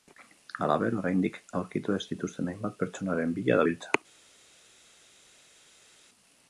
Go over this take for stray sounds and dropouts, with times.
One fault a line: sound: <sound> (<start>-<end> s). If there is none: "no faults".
no faults